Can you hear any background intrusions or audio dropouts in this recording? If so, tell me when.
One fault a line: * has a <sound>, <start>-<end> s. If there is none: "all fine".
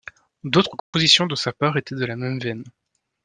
* has a dropout, 0.8-0.9 s